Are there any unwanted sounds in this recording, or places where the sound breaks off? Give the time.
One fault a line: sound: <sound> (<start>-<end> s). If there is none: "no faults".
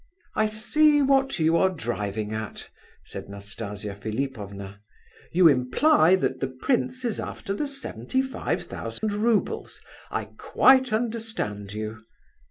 sound: dropout (9.0-9.0 s)